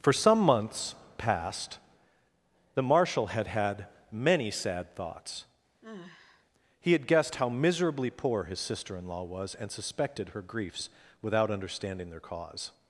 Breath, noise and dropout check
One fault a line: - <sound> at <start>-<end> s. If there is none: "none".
- sigh at 5.8-6.5 s